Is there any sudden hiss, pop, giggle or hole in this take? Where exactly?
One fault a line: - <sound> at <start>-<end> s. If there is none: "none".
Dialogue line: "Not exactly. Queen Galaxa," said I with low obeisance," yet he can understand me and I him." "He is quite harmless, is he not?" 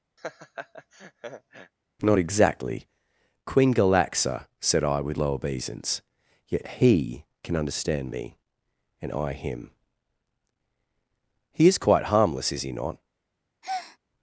- laugh at 0.2-1.7 s
- breath at 13.6-14.0 s